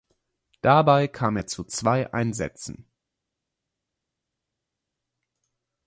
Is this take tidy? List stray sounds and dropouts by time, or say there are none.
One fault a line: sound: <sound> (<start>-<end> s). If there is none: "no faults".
no faults